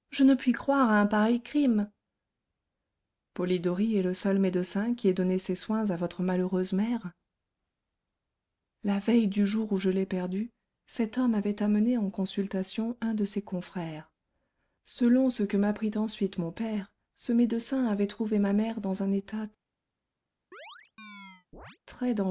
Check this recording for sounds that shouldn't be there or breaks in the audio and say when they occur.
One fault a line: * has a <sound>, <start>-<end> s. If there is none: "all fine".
* has a chirp, 20.5-21.8 s